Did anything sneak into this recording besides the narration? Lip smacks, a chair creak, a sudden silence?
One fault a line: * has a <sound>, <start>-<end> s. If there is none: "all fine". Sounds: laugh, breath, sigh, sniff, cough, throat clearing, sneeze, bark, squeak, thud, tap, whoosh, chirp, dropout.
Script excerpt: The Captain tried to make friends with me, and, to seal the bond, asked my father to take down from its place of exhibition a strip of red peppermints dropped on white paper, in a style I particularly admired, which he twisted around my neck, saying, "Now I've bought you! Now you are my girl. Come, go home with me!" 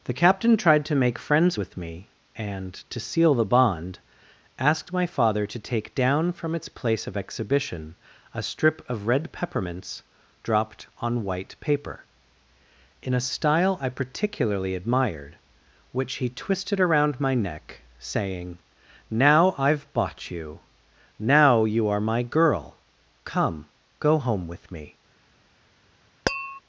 * has a tap, 26.3-26.6 s